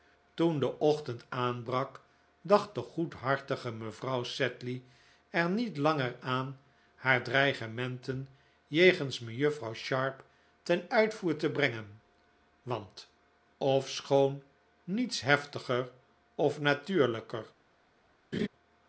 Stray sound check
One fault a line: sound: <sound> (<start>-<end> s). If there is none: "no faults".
sound: laugh (18.3-18.5 s)